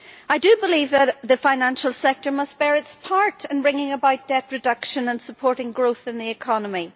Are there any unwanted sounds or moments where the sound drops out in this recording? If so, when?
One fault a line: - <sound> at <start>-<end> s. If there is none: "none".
none